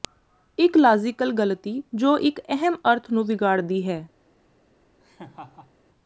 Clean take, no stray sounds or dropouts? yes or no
no